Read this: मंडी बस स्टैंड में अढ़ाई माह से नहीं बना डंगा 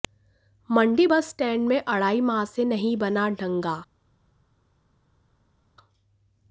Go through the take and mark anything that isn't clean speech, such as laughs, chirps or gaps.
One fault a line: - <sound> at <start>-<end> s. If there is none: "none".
none